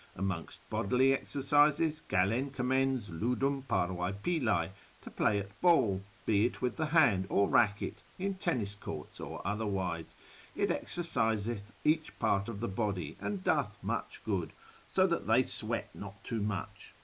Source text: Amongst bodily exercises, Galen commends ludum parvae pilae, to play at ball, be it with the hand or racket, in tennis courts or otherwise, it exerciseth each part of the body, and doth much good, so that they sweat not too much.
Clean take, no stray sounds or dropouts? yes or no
yes